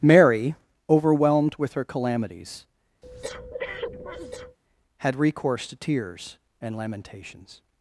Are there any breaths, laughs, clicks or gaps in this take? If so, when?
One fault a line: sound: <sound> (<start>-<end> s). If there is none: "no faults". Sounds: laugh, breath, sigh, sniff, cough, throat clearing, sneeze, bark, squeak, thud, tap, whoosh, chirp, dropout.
sound: breath (3.0-4.6 s)